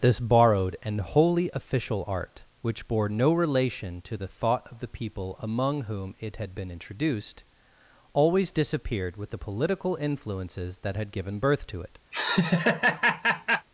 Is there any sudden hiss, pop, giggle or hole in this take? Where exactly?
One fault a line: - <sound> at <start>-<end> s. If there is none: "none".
- laugh at 12.1-13.7 s